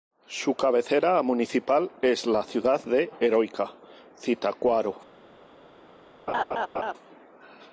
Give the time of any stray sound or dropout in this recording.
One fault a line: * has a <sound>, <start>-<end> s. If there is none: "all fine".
* has a laugh, 6.3-6.9 s